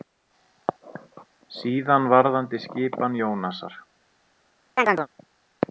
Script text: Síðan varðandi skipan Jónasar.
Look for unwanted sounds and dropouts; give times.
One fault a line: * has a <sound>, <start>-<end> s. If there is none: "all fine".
* has a chirp, 4.8-5.1 s